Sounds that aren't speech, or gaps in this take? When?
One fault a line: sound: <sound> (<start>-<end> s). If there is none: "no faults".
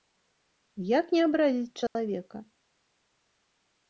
sound: dropout (1.9-2.0 s)